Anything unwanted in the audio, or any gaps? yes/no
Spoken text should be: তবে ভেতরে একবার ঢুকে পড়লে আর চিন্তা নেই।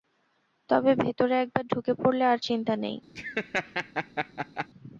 yes